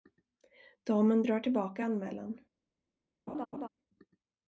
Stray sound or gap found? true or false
true